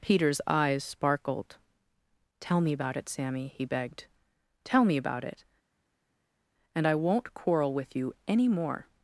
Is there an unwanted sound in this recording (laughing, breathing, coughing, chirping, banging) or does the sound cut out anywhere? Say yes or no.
no